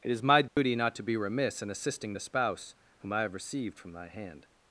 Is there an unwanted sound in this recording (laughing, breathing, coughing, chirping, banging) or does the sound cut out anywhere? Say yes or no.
yes